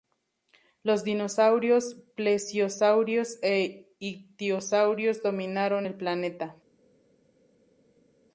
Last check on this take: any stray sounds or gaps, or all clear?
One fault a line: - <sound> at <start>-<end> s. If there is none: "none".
none